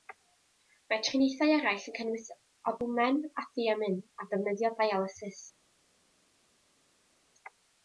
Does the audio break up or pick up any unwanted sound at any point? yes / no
no